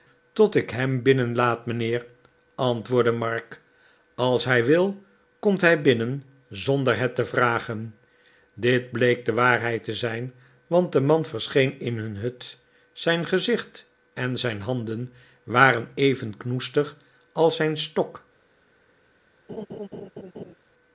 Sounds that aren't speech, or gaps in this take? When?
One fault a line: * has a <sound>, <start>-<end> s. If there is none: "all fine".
* has a laugh, 19.5-20.5 s